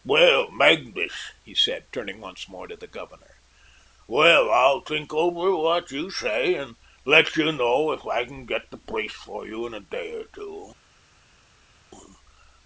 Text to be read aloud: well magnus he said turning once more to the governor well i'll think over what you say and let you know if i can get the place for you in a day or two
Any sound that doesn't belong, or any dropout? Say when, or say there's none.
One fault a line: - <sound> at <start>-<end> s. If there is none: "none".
none